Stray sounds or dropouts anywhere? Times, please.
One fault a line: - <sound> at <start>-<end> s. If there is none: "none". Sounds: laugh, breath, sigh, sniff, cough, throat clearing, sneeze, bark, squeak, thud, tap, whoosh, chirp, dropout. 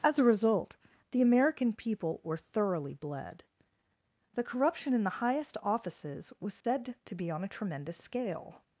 - dropout at 6.6-6.6 s